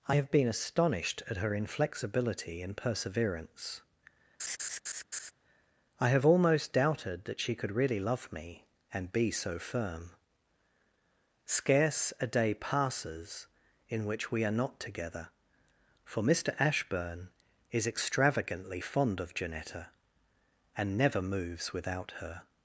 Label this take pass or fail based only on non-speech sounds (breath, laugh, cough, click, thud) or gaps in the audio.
fail